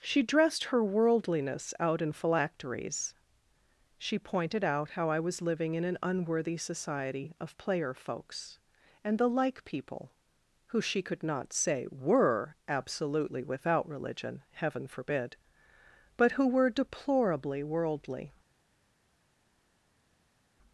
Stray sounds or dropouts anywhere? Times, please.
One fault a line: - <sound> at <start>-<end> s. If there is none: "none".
none